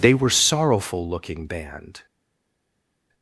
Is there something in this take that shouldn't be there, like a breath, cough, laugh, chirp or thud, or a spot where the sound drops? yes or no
no